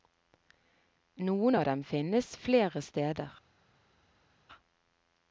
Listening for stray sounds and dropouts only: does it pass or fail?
pass